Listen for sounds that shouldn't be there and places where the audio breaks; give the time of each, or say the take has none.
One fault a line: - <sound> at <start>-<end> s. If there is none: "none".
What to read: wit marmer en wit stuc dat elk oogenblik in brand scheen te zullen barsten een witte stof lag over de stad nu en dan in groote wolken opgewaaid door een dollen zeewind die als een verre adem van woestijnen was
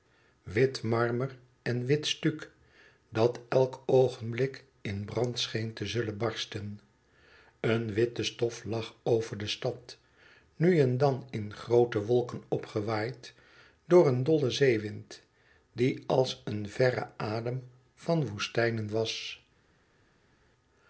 none